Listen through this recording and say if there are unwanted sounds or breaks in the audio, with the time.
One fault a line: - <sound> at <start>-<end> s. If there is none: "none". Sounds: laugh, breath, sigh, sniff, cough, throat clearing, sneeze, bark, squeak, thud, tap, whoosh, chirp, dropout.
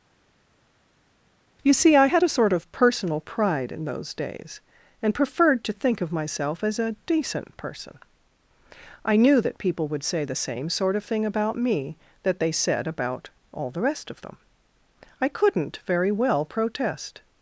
none